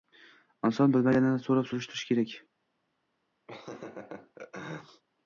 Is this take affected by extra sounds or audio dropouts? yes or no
yes